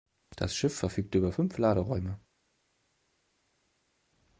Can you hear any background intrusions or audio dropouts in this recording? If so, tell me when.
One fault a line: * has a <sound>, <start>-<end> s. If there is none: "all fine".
all fine